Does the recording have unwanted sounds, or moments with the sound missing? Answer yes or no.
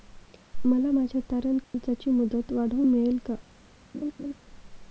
yes